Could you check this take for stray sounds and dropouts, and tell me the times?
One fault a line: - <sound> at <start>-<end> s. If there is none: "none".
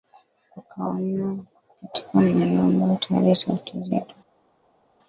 none